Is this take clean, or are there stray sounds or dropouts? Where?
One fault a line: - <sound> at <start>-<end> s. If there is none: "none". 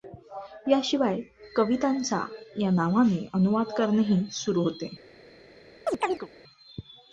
- chirp at 5.9-6.3 s